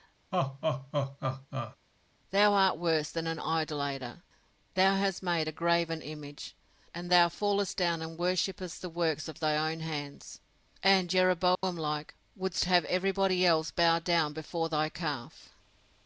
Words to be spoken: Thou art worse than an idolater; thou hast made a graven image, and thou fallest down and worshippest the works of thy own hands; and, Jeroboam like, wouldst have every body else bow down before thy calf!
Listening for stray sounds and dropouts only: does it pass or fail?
fail